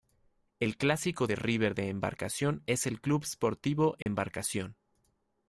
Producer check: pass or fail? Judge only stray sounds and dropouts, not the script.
fail